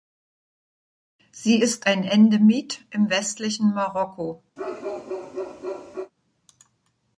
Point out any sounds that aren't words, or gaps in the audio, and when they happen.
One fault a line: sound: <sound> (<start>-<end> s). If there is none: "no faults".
sound: bark (4.6-6.1 s)